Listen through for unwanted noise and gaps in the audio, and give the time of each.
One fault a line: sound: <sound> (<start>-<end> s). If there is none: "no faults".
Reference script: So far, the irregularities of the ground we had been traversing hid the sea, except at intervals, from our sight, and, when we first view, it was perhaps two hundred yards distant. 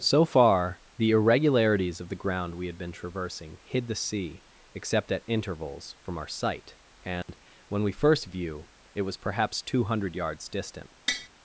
sound: dropout (7.2-7.3 s)
sound: tap (11.1-11.3 s)